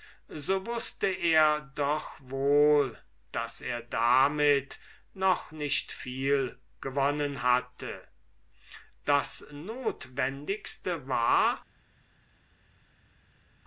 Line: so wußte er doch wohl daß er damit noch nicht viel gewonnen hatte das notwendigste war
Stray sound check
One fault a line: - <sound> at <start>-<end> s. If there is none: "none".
none